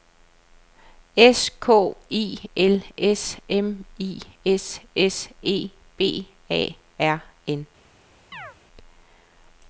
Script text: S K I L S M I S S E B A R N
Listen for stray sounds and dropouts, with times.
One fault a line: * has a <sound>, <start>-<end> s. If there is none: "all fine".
* has a chirp, 8.3-8.6 s